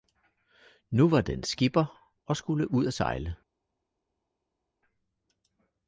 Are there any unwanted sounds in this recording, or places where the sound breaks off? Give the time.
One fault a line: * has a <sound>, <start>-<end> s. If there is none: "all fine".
all fine